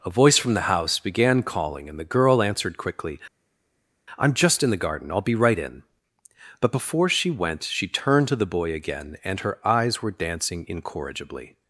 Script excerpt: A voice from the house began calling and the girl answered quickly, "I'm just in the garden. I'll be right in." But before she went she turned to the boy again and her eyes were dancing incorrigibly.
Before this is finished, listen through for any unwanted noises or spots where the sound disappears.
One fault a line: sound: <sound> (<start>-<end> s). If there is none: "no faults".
no faults